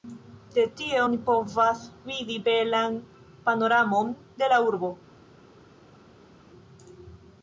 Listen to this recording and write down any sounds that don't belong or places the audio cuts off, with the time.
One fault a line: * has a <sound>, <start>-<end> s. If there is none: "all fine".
all fine